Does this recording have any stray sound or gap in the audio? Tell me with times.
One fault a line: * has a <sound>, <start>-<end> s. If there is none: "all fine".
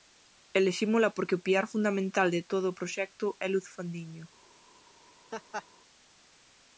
* has a laugh, 5.3-5.7 s